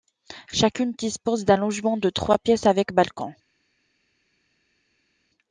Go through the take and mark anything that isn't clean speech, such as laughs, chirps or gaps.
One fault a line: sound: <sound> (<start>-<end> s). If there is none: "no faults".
no faults